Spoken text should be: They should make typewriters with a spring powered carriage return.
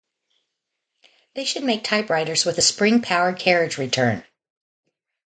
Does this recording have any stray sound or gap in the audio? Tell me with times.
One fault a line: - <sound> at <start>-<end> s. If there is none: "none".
none